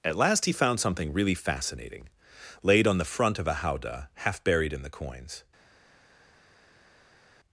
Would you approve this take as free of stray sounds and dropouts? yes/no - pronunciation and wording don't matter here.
yes